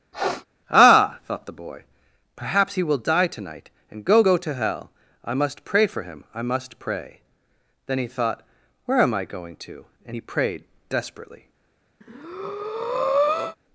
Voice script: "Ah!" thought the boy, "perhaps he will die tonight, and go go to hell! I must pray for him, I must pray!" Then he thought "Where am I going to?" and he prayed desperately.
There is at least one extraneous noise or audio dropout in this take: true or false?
true